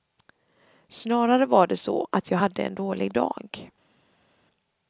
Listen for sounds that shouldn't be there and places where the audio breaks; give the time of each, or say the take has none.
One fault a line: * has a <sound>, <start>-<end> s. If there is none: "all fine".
all fine